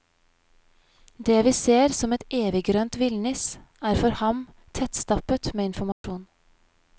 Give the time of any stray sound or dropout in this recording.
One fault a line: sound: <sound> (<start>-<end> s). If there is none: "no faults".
sound: dropout (5.9-6.0 s)